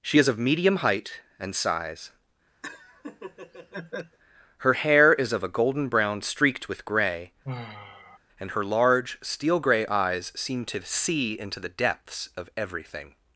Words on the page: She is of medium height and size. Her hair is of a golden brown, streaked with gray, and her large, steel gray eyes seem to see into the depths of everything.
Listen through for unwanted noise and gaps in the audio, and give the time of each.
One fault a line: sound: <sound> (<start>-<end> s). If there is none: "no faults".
sound: laugh (2.6-4.2 s)
sound: sigh (7.4-8.2 s)